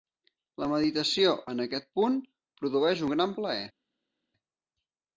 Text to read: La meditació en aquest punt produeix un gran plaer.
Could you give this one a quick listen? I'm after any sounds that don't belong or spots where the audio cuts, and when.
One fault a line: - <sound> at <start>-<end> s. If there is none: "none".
none